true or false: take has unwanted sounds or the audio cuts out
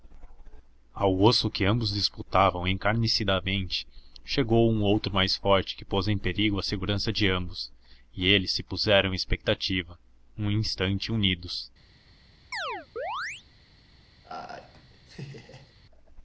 true